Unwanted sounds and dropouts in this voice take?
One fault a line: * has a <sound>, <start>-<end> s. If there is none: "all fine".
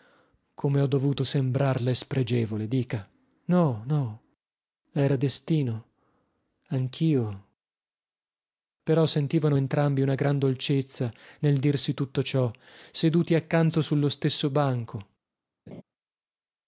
* has a laugh, 15.7-15.8 s